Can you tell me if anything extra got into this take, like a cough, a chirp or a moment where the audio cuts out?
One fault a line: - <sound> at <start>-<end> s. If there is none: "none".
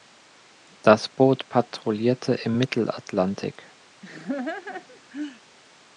- laugh at 4.0-5.4 s